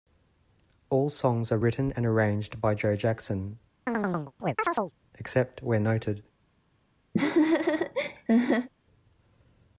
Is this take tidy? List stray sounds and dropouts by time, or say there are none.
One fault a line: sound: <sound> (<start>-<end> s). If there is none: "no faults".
sound: chirp (3.9-4.9 s)
sound: laugh (7.1-8.7 s)